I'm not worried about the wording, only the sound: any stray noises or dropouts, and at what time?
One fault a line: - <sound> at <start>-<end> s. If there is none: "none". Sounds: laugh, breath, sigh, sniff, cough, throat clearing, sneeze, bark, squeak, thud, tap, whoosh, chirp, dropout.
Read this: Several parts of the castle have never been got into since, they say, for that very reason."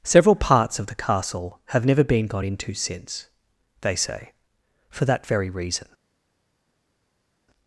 none